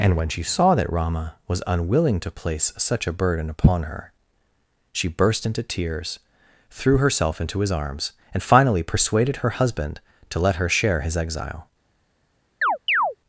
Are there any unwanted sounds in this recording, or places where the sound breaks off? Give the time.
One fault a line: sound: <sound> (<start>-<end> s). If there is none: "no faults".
sound: chirp (12.6-13.2 s)